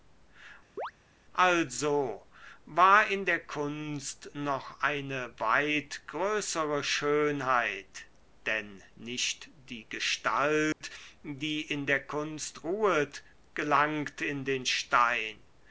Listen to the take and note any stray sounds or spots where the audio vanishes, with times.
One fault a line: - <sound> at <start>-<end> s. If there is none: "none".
- chirp at 0.8-0.9 s
- dropout at 10.7-10.8 s